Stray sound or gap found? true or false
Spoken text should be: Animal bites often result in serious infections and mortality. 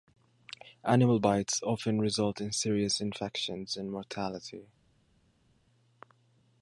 false